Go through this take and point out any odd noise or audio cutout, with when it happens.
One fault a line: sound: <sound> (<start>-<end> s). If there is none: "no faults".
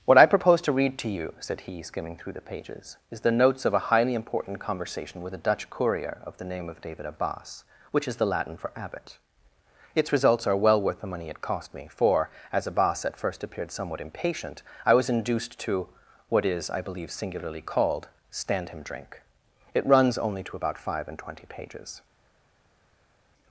no faults